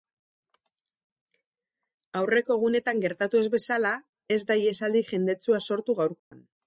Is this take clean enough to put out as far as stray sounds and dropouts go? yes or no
no